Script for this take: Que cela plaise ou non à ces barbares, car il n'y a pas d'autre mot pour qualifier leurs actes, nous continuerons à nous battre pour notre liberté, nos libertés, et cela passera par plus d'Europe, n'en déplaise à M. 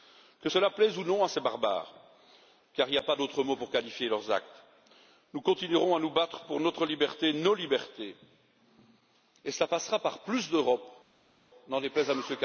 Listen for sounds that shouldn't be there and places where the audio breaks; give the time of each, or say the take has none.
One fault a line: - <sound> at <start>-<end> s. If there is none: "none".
none